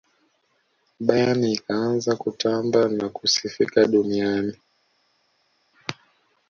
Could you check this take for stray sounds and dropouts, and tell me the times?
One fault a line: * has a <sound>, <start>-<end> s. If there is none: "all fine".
all fine